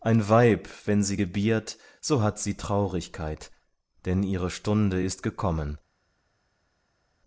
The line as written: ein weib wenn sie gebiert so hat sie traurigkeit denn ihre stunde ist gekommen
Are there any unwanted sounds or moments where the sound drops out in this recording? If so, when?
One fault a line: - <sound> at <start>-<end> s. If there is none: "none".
none